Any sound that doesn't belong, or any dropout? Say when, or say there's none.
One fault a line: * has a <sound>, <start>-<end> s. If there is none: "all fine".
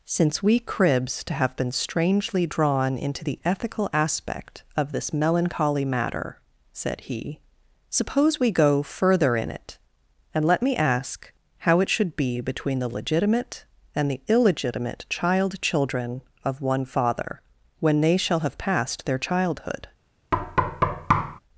* has a thud, 20.3-21.4 s